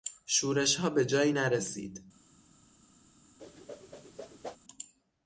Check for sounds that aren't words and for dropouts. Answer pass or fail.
fail